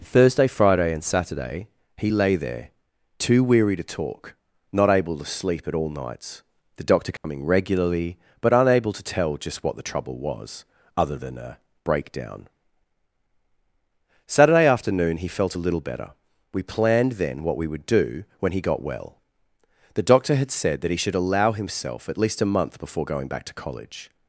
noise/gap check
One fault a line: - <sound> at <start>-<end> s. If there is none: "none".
- dropout at 7.2-7.2 s